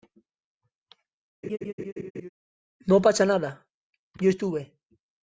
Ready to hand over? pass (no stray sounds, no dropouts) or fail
fail